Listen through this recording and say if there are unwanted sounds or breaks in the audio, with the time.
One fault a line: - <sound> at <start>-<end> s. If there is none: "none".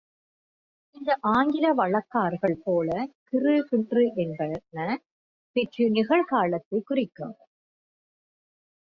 none